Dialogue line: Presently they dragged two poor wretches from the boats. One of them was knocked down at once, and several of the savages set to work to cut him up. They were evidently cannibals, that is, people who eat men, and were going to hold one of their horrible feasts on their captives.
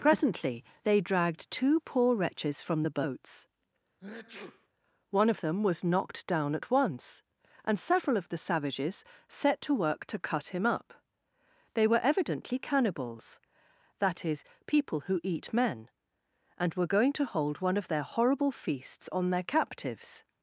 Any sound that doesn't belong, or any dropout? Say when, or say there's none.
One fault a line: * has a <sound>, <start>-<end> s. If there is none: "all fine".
* has a sneeze, 4.0-4.7 s